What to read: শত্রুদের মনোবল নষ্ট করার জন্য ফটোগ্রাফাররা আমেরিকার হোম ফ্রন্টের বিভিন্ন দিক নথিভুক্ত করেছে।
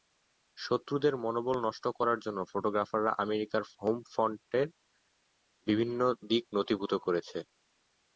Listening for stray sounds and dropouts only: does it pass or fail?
pass